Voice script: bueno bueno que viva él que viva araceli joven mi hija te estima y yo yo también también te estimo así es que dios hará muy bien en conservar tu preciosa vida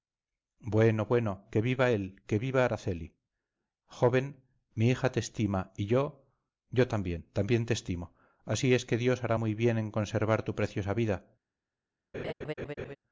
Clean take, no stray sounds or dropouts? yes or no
no